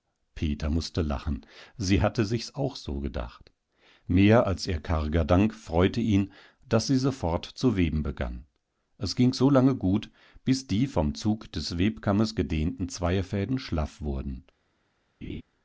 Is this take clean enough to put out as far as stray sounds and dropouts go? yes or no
no